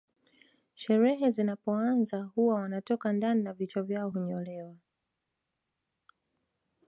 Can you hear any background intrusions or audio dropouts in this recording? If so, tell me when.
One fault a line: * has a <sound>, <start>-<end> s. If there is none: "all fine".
all fine